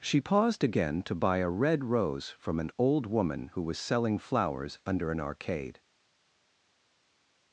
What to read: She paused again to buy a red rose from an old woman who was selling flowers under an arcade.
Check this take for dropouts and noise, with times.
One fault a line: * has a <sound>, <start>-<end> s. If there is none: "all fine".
all fine